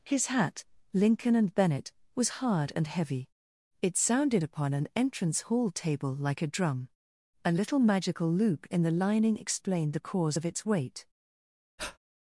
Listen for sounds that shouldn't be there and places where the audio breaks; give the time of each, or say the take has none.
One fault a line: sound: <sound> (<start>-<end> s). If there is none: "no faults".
sound: breath (11.8-12.0 s)